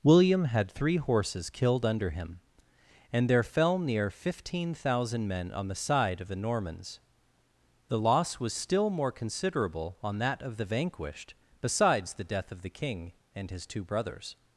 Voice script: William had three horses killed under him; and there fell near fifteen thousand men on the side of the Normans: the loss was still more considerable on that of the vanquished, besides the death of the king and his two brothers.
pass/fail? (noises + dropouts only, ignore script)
pass